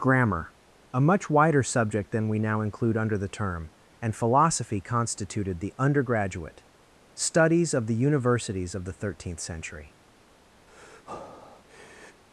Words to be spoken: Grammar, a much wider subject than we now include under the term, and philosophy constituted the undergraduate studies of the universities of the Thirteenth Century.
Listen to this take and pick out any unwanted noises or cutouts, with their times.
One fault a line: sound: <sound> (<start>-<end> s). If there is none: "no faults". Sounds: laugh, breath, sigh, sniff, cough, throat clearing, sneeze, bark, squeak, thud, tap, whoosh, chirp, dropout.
sound: breath (10.7-12.2 s)